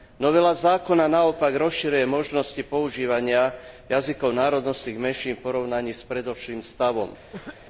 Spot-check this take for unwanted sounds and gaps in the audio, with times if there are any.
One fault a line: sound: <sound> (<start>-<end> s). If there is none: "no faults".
sound: cough (7.3-7.6 s)